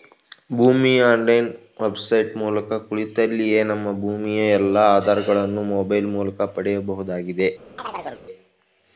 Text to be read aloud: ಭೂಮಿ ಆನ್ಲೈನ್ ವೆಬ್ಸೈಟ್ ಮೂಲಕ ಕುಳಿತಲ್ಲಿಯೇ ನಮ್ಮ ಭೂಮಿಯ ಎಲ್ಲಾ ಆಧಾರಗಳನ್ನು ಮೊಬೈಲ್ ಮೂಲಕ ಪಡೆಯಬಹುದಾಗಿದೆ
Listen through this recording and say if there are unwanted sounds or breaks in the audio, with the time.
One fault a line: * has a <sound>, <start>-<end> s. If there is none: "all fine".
* has a chirp, 7.8-8.3 s